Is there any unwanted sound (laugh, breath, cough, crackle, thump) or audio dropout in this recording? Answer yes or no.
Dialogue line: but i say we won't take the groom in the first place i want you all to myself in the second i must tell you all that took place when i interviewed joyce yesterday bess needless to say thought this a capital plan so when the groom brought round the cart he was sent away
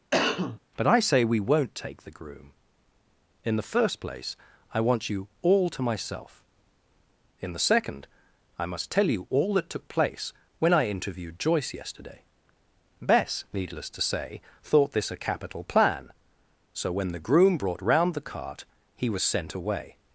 yes